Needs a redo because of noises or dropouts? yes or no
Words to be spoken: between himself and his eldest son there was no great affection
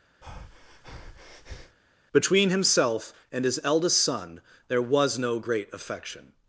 yes